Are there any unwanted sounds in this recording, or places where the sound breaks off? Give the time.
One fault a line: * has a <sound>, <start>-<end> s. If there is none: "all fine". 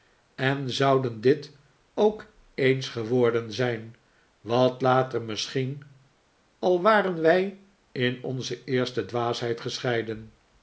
all fine